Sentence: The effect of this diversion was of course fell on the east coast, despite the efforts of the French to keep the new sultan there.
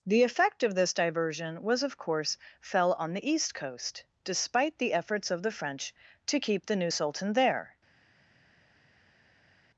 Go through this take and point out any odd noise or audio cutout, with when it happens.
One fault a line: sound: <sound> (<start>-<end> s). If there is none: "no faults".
no faults